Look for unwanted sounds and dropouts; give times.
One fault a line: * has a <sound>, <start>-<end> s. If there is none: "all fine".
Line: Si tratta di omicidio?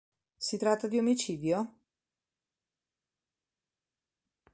all fine